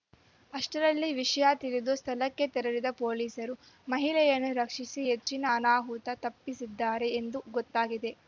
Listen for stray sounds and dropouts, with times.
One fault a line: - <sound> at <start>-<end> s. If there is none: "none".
- dropout at 5.2-5.3 s